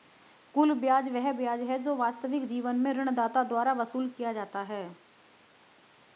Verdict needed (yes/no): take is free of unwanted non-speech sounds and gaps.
yes